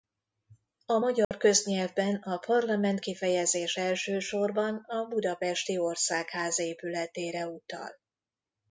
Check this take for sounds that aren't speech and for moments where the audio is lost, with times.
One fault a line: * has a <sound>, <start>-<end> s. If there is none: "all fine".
* has a dropout, 1.2-1.3 s